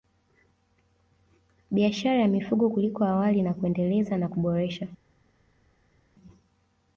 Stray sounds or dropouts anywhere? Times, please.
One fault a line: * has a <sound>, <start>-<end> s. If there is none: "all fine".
all fine